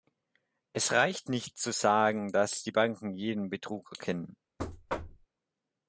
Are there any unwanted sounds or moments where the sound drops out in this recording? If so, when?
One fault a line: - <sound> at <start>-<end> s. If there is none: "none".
- thud at 4.6-5.3 s